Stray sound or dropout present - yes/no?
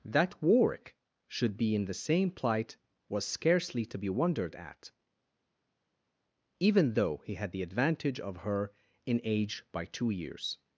no